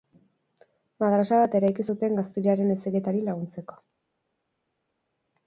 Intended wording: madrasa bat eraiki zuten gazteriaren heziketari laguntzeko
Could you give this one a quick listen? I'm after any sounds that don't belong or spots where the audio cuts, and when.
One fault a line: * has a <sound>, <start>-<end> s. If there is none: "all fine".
all fine